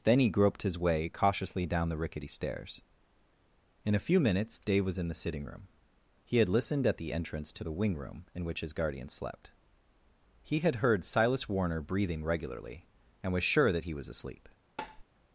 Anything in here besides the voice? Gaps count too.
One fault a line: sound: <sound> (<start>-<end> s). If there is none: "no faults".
sound: tap (14.8-15.0 s)